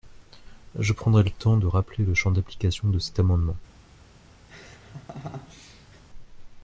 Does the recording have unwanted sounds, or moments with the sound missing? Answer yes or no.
yes